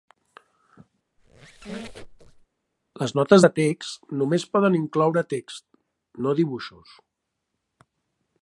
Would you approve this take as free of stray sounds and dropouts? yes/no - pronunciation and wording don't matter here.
no